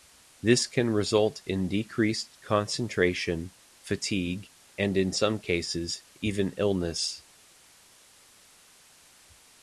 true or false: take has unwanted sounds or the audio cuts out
false